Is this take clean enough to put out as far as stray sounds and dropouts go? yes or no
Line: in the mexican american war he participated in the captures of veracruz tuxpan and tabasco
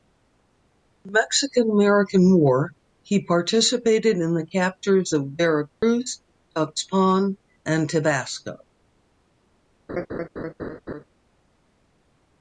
no